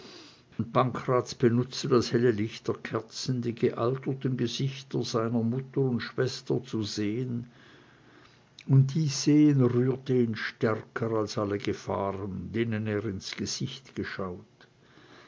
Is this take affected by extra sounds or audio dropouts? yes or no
yes